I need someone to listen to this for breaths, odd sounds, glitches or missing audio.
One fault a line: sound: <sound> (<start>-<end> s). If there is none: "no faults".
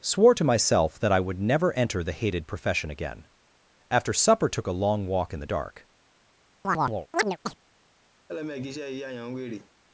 sound: chirp (6.6-7.6 s)
sound: laugh (8.3-9.7 s)